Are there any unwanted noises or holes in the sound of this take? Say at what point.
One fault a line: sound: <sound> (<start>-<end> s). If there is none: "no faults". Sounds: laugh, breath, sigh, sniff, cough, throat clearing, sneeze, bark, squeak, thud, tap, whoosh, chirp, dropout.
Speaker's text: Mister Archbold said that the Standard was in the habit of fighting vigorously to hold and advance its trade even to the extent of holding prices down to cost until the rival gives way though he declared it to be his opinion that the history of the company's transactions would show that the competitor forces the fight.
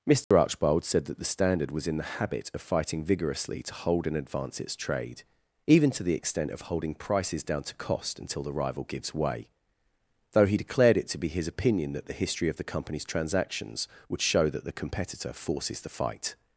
sound: dropout (0.2-0.3 s)